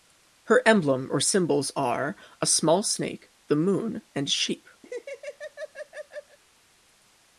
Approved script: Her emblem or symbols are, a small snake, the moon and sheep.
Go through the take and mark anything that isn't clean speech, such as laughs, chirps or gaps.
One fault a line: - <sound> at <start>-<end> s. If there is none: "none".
- laugh at 4.8-6.4 s